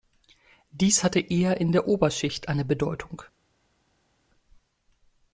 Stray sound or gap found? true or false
false